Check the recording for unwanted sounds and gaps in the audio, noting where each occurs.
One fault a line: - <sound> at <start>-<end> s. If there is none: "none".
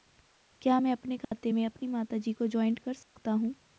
- dropout at 1.2-1.3 s
- dropout at 3.0-3.2 s